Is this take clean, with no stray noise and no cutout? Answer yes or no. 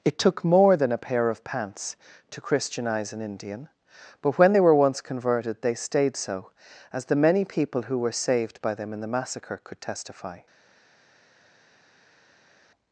yes